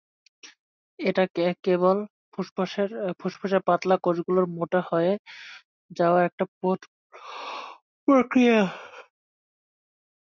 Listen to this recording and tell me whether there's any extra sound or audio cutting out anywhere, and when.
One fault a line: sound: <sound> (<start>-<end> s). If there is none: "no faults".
no faults